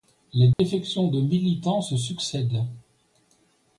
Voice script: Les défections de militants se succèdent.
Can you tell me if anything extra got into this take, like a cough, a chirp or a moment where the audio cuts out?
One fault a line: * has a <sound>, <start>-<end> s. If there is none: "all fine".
* has a dropout, 0.5-0.6 s